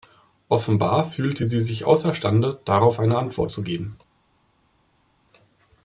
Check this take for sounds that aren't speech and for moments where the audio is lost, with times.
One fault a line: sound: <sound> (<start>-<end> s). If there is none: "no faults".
no faults